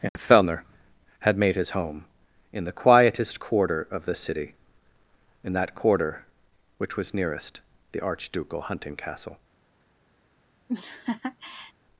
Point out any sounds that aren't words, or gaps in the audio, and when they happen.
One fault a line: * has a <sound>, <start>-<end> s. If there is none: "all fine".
* has a laugh, 10.7-11.7 s